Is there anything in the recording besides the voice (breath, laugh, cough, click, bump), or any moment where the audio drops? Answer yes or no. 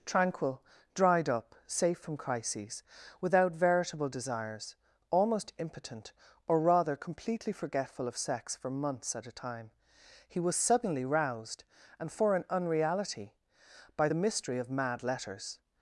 no